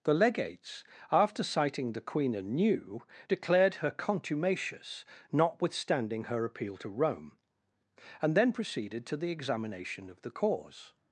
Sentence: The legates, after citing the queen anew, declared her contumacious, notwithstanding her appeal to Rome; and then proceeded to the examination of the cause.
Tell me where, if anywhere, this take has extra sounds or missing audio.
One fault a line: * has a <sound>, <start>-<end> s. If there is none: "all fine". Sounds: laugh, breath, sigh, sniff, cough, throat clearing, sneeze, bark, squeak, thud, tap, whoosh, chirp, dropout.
all fine